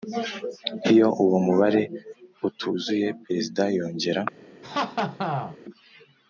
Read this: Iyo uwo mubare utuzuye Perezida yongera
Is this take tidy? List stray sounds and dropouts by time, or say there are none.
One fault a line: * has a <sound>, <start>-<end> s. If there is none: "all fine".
* has a laugh, 4.6-5.6 s